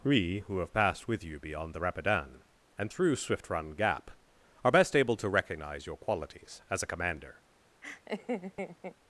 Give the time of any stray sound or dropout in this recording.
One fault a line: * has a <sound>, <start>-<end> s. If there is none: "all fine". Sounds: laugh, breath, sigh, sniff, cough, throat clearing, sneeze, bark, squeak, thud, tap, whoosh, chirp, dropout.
* has a laugh, 7.8-9.0 s